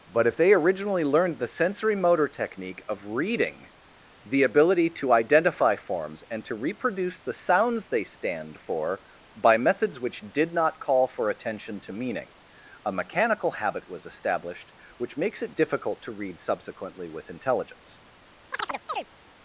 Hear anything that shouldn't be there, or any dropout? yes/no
yes